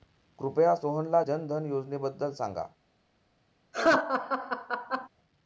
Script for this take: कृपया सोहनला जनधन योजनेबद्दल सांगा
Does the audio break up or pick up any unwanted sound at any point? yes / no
yes